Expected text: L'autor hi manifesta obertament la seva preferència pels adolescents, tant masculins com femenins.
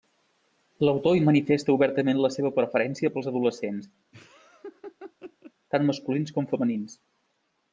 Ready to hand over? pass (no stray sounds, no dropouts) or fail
fail